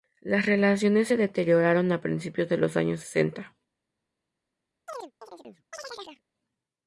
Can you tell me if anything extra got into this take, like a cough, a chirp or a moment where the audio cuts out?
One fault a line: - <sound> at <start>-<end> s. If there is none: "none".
- chirp at 4.9-6.2 s